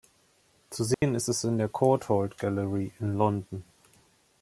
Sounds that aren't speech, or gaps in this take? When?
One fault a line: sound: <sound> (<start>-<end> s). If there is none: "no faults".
sound: dropout (0.9-1.0 s)